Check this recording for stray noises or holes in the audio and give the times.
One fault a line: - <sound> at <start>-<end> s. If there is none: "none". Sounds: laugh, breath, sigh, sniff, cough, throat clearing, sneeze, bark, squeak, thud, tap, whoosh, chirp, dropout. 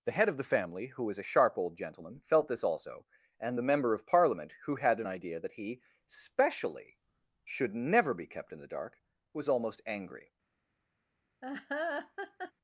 - laugh at 11.4-12.5 s